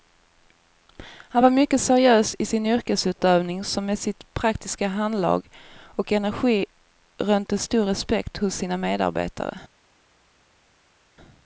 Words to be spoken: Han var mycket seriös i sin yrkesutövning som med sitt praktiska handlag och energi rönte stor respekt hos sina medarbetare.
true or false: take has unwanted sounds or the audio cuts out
false